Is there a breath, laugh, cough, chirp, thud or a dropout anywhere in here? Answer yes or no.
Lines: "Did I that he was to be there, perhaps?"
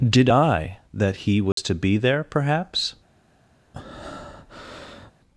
yes